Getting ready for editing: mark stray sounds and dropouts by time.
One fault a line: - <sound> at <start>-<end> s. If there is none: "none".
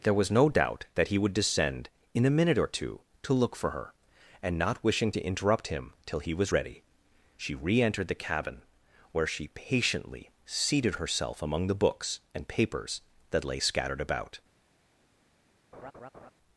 - laugh at 15.7-16.3 s